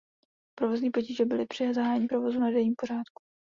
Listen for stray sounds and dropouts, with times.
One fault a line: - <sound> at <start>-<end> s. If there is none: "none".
none